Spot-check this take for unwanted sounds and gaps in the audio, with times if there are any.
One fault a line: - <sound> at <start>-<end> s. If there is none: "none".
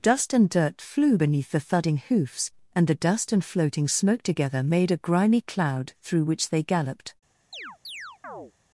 - chirp at 7.5-8.5 s